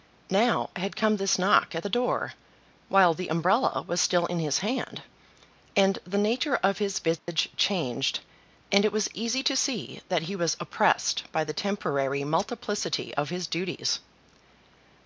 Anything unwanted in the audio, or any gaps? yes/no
yes